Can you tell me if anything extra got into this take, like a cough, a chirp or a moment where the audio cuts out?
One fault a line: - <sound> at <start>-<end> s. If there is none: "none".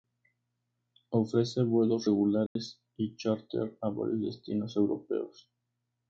- dropout at 2.5-2.6 s